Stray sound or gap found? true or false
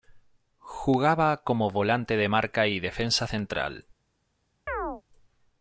true